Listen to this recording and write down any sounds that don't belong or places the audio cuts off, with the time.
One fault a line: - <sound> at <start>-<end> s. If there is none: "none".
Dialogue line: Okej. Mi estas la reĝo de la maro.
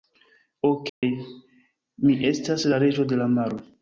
- dropout at 0.9-1.0 s